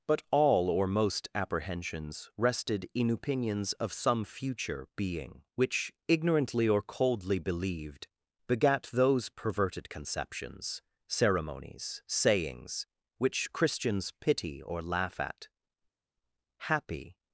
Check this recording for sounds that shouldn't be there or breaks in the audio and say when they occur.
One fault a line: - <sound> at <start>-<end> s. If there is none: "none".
none